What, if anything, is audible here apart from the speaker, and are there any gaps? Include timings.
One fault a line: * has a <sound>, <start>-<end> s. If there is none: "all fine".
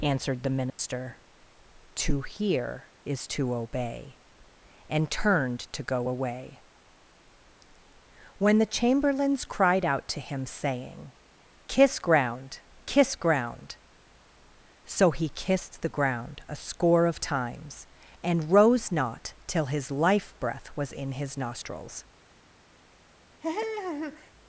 * has a dropout, 0.7-0.8 s
* has a laugh, 23.4-24.3 s